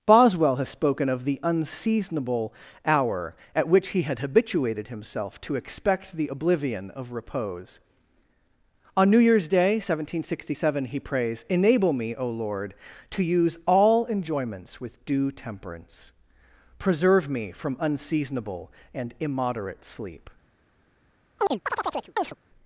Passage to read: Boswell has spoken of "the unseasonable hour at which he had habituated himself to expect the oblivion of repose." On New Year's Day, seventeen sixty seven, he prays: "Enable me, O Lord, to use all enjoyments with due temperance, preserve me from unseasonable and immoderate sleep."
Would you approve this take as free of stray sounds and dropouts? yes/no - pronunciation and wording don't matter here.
no